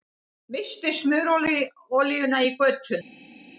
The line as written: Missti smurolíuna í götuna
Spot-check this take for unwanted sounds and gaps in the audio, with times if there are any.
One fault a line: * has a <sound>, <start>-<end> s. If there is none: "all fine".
all fine